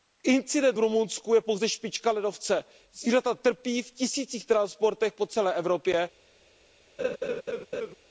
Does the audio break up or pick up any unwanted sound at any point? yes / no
yes